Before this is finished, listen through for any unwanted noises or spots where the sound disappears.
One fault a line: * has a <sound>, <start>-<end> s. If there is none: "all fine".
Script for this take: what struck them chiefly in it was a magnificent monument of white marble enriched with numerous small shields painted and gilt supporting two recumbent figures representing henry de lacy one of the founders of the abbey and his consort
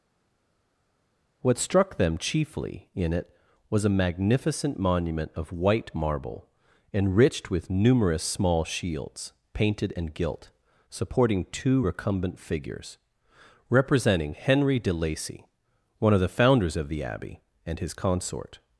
all fine